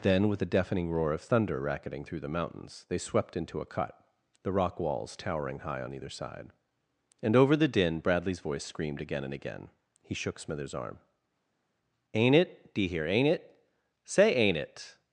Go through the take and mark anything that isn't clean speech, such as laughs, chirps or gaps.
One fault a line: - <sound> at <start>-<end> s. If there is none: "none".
none